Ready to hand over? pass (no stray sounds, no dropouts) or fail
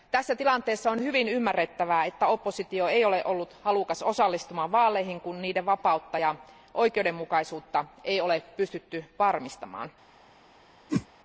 fail